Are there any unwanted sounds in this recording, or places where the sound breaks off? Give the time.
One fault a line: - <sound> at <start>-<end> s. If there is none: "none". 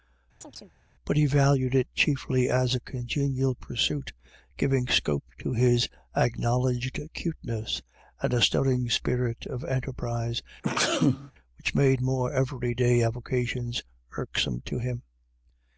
- chirp at 0.4-0.7 s
- sneeze at 10.6-11.3 s